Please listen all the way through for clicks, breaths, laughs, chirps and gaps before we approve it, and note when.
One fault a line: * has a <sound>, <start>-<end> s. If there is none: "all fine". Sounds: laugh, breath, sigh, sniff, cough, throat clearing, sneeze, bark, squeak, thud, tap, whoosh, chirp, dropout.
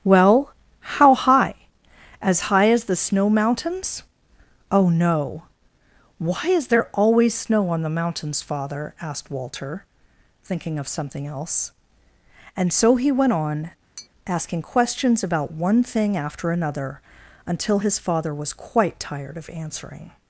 * has a tap, 14.0-14.1 s